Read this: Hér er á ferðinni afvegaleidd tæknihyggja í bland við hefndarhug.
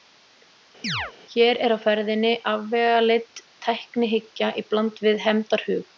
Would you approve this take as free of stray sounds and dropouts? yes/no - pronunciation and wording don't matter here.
no